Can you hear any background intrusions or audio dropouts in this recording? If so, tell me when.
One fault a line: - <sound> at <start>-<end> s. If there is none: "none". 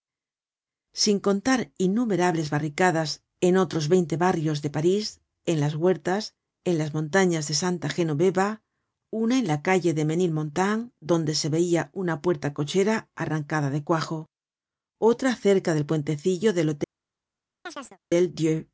- chirp at 17.7-18.0 s